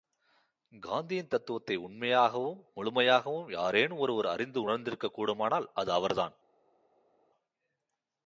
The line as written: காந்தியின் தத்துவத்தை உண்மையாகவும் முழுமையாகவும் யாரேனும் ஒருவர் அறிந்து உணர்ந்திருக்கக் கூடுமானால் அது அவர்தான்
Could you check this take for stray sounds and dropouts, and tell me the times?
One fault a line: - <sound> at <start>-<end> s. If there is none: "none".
none